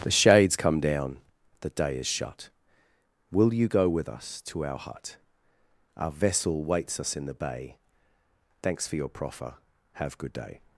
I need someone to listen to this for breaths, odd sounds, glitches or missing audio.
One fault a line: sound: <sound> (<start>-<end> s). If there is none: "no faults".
no faults